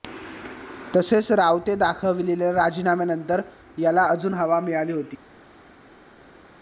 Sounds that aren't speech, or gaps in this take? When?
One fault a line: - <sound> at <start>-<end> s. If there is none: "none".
none